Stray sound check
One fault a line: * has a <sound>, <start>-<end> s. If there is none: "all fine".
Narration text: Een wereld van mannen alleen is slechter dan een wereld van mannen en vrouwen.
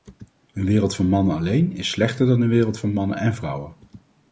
all fine